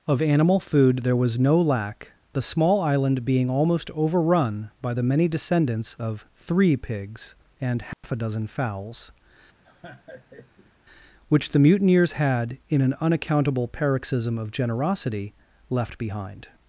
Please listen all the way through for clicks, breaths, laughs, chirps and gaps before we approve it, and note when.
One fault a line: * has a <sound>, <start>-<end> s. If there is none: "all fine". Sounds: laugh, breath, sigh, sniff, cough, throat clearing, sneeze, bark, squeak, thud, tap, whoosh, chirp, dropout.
* has a dropout, 7.9-8.0 s
* has a laugh, 9.6-10.7 s